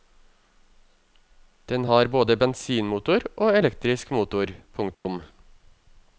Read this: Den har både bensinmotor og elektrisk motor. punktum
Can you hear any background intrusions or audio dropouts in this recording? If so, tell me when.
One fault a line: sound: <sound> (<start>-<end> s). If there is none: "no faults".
sound: dropout (4.9-5.1 s)